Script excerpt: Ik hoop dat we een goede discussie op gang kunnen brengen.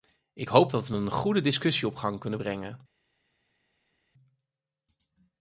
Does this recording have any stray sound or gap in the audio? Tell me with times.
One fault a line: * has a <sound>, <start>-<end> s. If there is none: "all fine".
all fine